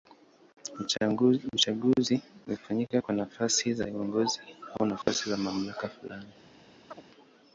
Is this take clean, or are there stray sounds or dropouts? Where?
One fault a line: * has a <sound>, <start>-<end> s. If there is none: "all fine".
* has a dropout, 5.0-5.1 s
* has a chirp, 6.9-7.0 s